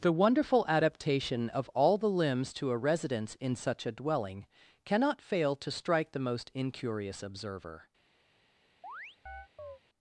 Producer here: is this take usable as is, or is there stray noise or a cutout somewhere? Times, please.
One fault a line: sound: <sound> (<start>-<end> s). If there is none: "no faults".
sound: chirp (8.8-9.8 s)